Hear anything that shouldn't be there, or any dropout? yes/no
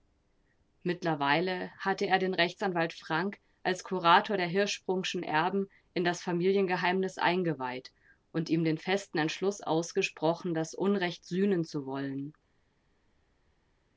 no